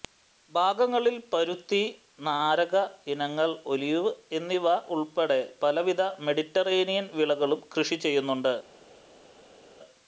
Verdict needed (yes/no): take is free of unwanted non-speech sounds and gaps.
yes